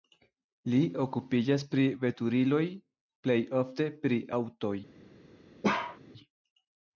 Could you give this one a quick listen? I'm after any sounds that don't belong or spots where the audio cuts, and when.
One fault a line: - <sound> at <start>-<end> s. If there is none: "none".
- bark at 5.6-6.0 s